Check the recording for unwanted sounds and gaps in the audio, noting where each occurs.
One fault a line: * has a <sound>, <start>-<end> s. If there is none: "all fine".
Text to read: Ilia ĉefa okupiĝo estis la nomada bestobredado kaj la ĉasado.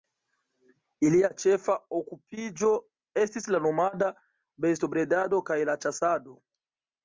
all fine